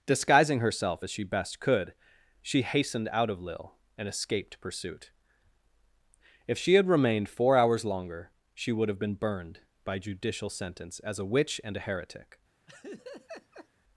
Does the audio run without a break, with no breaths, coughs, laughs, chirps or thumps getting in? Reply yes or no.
no